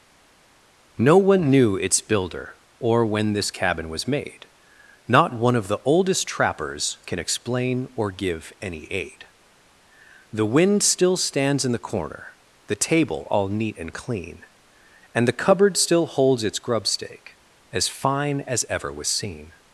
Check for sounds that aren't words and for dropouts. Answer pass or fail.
pass